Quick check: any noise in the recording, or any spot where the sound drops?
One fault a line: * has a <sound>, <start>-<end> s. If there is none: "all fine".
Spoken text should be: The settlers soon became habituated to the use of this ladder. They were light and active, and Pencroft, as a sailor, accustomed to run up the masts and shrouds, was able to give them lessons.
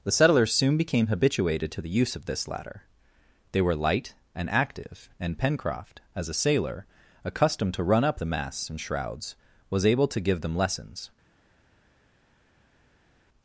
all fine